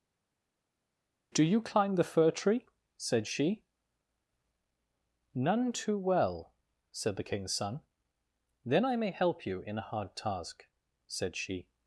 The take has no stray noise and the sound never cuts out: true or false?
true